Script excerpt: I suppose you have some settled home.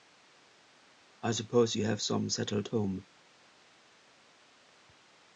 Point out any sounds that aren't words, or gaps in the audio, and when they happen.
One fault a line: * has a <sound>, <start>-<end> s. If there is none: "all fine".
all fine